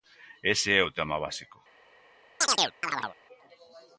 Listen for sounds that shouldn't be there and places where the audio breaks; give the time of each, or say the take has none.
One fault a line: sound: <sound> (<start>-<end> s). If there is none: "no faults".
sound: chirp (2.4-3.2 s)